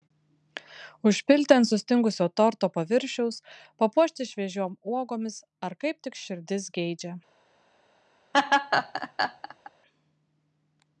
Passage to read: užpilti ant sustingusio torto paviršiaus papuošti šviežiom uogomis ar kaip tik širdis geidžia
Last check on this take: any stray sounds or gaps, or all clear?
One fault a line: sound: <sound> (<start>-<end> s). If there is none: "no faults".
sound: laugh (8.3-9.7 s)